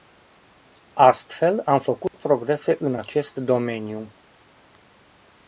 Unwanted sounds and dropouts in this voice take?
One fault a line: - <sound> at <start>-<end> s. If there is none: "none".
- dropout at 2.1-2.1 s